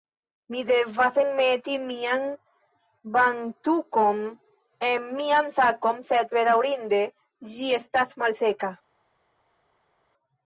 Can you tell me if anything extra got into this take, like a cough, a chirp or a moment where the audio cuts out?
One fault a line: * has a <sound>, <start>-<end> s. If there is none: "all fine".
all fine